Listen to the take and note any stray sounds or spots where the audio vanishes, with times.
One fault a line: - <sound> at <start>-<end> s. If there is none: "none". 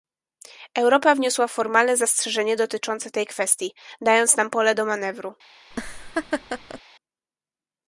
- laugh at 5.7-6.8 s